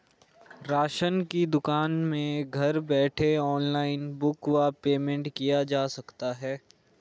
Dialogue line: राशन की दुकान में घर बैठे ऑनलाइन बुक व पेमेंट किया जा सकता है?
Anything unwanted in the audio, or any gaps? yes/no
no